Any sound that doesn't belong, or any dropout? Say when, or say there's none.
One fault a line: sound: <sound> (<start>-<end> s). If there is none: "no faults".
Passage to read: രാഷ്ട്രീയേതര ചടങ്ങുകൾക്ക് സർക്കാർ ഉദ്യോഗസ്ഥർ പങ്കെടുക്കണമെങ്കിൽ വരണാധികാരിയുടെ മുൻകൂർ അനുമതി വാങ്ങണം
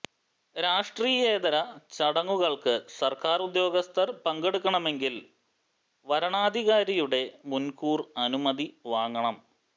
no faults